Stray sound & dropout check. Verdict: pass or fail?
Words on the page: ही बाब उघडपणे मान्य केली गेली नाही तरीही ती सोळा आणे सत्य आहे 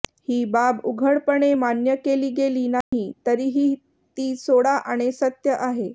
fail